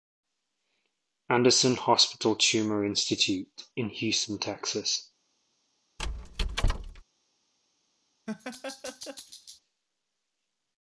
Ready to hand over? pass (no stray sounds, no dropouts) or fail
fail